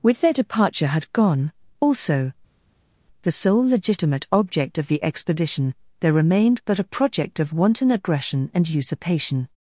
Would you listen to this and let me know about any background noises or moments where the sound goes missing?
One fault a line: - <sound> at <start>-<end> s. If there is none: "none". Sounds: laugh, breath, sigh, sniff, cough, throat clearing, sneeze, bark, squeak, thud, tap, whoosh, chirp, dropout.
none